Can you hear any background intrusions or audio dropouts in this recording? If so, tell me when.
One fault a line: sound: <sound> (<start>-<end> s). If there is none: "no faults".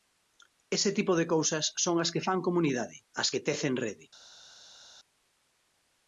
no faults